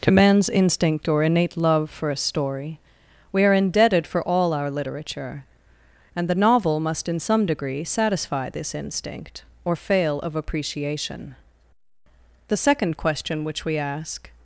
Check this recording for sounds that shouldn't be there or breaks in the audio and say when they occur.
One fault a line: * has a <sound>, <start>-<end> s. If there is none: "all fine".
all fine